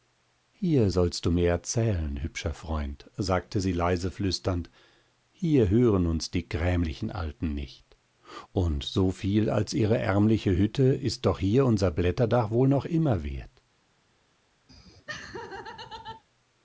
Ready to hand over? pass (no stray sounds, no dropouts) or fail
fail